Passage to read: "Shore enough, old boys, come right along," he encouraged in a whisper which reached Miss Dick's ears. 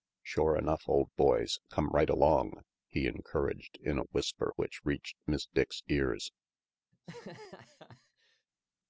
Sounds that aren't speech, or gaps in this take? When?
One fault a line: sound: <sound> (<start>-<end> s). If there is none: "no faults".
sound: laugh (6.9-8.5 s)